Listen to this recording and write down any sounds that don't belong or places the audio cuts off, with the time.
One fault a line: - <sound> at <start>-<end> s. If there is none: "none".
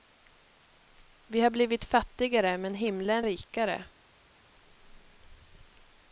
none